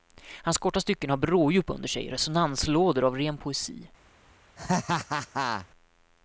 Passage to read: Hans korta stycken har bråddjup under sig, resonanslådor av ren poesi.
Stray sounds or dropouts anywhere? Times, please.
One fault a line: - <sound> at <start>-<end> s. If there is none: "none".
- laugh at 4.6-5.7 s